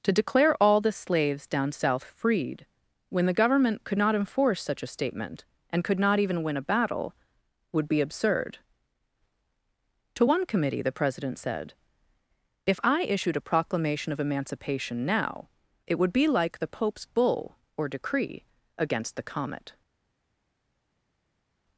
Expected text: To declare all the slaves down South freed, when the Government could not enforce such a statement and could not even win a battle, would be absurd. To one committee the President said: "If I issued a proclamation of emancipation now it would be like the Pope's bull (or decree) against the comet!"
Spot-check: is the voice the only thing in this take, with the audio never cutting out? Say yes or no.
yes